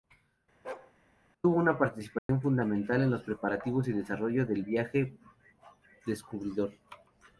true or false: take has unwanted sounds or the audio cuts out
true